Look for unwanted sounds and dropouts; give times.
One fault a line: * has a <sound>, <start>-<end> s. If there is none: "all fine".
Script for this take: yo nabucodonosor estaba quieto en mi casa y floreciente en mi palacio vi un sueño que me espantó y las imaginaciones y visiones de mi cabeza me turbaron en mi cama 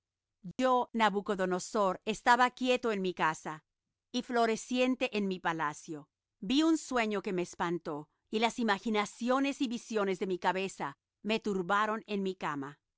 * has a dropout, 0.5-0.6 s